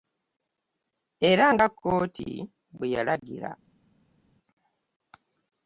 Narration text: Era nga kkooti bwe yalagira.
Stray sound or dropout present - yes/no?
no